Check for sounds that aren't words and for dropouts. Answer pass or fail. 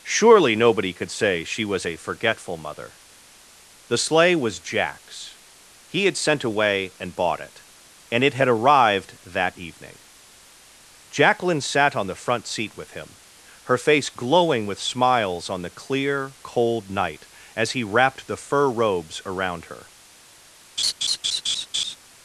fail